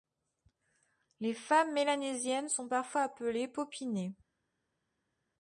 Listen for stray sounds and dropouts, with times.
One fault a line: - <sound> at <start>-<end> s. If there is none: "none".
none